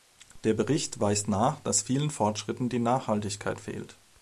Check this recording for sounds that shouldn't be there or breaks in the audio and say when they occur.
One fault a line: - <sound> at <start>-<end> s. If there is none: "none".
none